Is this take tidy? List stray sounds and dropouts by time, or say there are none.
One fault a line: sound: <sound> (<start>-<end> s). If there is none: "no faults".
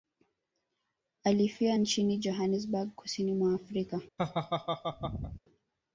sound: laugh (4.2-5.4 s)